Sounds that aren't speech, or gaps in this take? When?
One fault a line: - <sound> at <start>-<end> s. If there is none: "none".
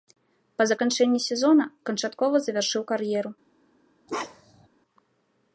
- bark at 4.1-4.7 s